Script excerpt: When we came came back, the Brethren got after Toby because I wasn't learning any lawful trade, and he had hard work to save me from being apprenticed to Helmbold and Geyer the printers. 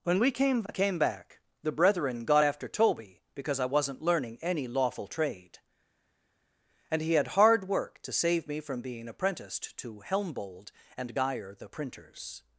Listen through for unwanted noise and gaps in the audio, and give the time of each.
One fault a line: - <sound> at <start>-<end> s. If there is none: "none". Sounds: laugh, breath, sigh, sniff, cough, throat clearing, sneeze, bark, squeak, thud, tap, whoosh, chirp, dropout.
none